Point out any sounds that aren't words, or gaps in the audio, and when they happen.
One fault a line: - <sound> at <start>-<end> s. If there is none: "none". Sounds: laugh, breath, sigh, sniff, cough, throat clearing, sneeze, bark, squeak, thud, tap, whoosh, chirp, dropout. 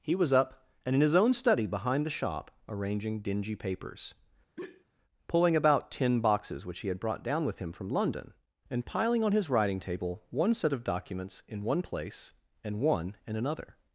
- sigh at 4.6-4.8 s